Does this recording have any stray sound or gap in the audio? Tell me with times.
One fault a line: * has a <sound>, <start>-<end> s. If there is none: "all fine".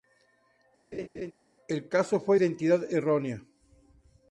* has a laugh, 0.9-1.3 s